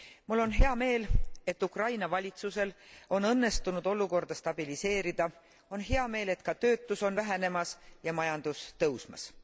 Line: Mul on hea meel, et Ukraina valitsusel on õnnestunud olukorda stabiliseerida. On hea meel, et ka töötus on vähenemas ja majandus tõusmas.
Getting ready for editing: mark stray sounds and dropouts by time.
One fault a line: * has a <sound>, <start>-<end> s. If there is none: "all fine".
all fine